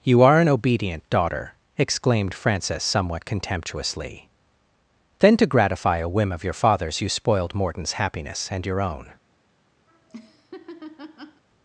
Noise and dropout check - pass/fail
fail